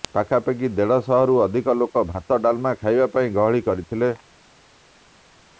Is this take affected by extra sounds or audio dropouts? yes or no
no